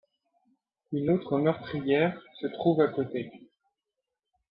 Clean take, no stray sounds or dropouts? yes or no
yes